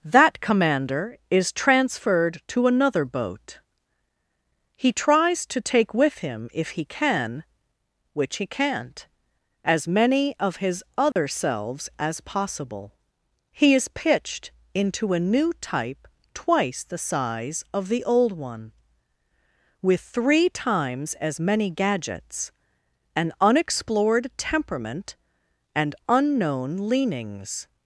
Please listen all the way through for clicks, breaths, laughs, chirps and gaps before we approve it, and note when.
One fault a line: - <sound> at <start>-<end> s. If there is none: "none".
- dropout at 11.1-11.2 s